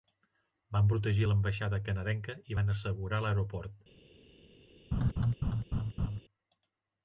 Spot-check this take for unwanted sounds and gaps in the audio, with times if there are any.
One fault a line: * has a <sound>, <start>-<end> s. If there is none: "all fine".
* has a laugh, 4.9-6.2 s